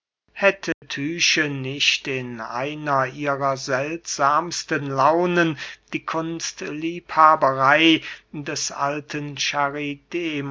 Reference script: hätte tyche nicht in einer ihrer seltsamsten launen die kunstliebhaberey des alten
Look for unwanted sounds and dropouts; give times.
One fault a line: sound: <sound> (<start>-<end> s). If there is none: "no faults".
sound: dropout (0.7-0.8 s)